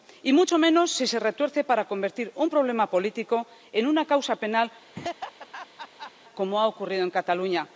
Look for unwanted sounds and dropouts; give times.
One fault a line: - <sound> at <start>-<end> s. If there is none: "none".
- laugh at 4.9-6.1 s